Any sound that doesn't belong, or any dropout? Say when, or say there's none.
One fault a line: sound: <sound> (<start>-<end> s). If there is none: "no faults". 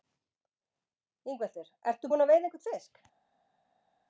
no faults